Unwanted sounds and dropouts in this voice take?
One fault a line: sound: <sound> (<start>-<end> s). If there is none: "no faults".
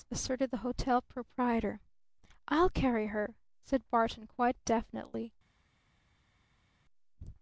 no faults